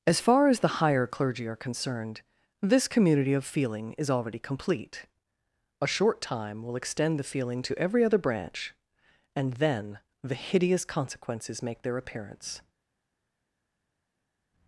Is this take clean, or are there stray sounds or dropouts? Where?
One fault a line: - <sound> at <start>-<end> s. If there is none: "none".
none